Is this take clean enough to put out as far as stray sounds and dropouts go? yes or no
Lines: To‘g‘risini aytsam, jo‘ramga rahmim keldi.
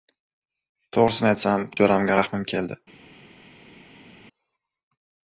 yes